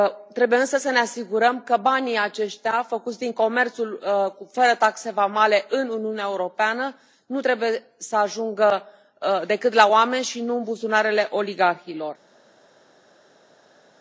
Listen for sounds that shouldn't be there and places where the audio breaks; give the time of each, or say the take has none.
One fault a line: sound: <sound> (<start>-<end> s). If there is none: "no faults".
no faults